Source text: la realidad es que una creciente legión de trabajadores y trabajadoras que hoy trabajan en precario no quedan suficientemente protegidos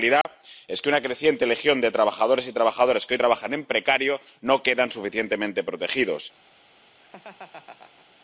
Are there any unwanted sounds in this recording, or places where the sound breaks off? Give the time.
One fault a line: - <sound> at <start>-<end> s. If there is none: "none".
- dropout at 0.2-0.2 s
- laugh at 7.0-8.2 s